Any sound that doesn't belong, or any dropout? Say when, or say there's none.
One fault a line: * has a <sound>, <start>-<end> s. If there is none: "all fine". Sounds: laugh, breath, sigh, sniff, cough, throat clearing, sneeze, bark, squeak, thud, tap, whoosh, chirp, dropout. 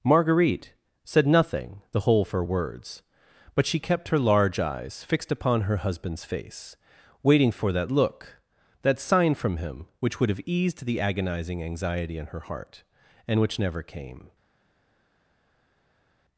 all fine